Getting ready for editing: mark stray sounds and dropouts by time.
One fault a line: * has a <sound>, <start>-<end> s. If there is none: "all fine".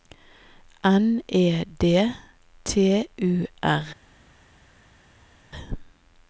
all fine